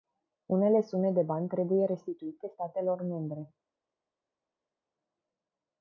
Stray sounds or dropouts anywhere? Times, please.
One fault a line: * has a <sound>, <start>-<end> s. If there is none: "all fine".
all fine